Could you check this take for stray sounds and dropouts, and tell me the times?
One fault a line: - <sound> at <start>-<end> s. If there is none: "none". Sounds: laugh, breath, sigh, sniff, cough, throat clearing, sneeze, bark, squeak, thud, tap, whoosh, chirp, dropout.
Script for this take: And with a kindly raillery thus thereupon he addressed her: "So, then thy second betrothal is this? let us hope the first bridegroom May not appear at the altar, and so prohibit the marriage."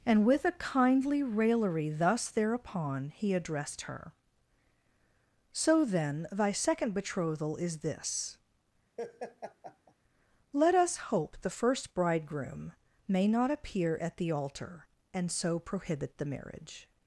- laugh at 9.0-9.9 s